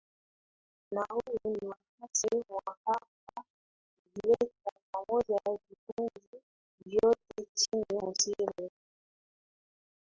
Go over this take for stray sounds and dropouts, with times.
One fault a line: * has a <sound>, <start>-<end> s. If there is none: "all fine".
all fine